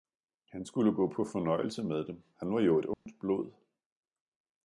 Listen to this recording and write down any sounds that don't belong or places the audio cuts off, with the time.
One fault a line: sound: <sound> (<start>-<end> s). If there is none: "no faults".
sound: dropout (2.9-3.1 s)